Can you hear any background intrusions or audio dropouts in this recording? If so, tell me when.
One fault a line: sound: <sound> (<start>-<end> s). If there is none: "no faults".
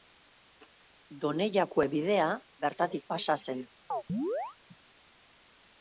sound: chirp (3.9-4.6 s)